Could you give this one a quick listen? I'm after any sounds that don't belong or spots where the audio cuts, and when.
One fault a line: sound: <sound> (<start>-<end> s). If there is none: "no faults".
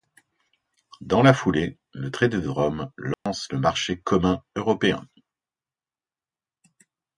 sound: dropout (3.1-3.3 s)